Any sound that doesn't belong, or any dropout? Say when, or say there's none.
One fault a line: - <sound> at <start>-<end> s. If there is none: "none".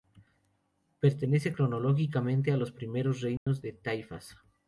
- dropout at 3.4-3.5 s